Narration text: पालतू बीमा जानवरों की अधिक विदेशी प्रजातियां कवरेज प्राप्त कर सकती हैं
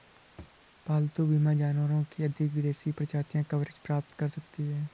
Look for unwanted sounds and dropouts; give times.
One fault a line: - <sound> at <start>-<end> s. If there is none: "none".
- thud at 0.4-0.6 s